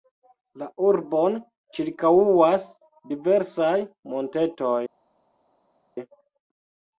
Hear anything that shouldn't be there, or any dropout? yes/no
no